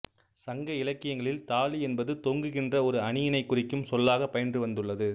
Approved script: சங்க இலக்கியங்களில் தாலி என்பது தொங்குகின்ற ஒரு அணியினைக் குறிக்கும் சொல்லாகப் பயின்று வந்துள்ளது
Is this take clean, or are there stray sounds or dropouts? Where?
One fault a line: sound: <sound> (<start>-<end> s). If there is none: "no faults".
no faults